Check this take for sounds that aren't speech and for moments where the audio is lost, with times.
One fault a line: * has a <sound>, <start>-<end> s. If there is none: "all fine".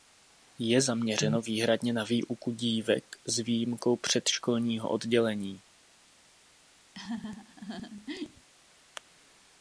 * has a laugh, 6.9-8.5 s